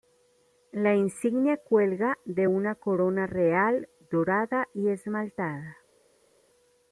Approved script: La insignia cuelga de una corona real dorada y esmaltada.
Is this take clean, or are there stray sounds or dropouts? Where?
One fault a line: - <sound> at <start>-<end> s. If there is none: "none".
none